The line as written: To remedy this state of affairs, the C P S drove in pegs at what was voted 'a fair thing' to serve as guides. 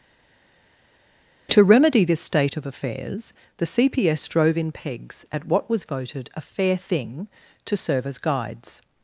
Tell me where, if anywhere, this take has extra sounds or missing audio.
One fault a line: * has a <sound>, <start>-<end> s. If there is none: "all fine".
all fine